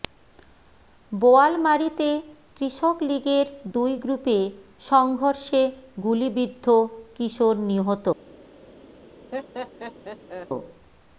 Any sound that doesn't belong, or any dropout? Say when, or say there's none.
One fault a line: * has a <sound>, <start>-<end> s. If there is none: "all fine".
* has a laugh, 9.3-10.5 s